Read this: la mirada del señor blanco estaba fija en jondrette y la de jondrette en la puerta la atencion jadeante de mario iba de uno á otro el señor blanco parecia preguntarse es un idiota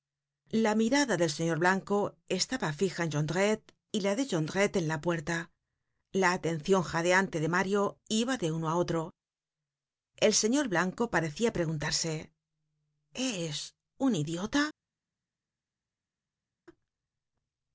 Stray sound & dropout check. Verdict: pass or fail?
pass